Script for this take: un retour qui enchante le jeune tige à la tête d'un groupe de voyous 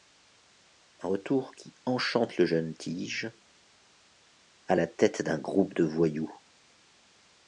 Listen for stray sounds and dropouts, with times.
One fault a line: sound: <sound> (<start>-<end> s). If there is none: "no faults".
no faults